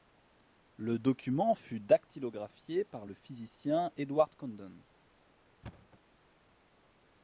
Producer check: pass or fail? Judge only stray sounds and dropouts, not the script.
fail